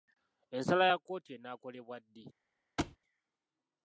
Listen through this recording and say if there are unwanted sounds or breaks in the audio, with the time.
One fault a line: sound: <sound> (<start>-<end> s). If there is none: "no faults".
sound: thud (2.8-3.0 s)